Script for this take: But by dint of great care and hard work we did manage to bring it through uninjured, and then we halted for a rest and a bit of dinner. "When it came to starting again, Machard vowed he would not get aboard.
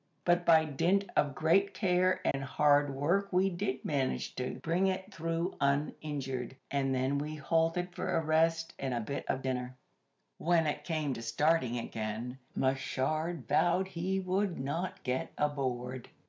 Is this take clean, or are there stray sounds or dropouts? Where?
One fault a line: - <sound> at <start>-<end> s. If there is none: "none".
- dropout at 2.3-2.3 s